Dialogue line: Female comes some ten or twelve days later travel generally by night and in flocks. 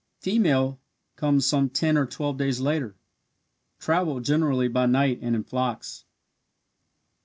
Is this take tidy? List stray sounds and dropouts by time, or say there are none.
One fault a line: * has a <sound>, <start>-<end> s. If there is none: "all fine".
all fine